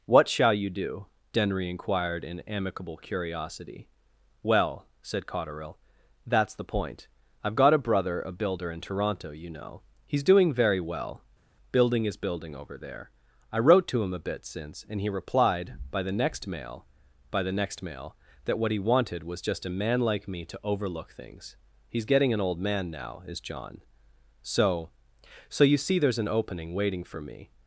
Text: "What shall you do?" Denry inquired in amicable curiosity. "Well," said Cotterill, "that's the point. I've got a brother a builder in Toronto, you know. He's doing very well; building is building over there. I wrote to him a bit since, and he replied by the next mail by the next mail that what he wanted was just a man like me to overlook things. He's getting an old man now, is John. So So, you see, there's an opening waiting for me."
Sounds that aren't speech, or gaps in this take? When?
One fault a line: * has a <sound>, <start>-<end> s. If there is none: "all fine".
all fine